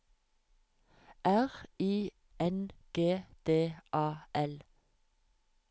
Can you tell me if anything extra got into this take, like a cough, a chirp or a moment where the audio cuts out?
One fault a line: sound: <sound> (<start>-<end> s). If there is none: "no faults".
no faults